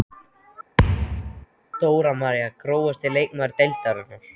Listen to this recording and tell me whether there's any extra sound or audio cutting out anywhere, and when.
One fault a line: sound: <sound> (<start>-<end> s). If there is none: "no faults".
sound: thud (0.8-1.5 s)